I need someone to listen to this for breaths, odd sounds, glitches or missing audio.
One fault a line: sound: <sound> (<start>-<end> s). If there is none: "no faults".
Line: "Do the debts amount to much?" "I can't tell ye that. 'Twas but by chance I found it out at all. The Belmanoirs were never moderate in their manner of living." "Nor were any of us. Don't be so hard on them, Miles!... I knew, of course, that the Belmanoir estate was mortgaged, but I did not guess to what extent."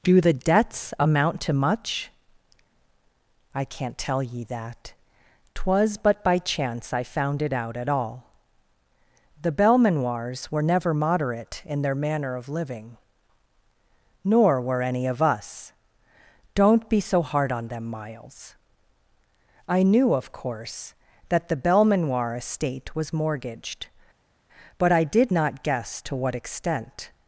no faults